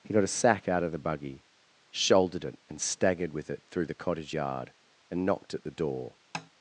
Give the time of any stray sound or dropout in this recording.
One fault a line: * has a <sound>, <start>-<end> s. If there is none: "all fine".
* has a tap, 6.3-6.5 s